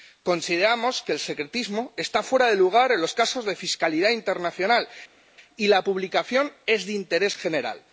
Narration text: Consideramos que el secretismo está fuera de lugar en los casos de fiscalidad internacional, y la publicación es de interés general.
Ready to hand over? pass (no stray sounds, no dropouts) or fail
pass